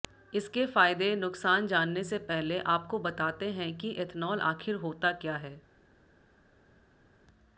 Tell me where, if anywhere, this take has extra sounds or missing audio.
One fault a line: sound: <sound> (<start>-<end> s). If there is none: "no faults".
no faults